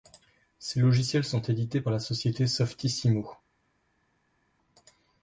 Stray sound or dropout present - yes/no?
no